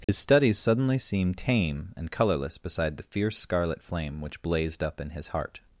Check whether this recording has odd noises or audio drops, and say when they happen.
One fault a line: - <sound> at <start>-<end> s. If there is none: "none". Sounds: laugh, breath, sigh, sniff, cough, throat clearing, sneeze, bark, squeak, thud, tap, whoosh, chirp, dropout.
- dropout at 0.0-0.1 s